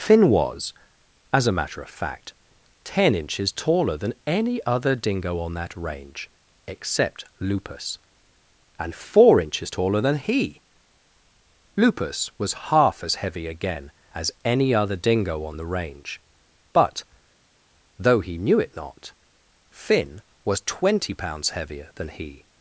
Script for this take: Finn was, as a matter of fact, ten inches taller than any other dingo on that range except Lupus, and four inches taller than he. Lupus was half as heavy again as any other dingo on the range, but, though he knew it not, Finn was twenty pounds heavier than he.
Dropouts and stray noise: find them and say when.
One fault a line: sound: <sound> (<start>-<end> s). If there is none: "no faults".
no faults